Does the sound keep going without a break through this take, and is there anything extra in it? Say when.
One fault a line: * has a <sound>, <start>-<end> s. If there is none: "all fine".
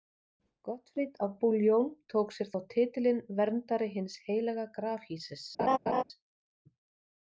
* has a laugh, 5.6-6.0 s